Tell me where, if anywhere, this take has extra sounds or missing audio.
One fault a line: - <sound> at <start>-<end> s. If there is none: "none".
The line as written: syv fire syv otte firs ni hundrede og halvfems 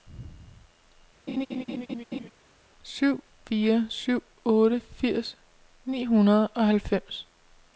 - laugh at 1.3-2.3 s